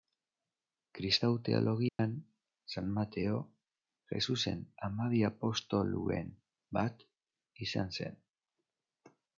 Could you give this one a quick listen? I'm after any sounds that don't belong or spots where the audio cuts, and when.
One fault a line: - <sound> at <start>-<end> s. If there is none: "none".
- dropout at 1.9-2.0 s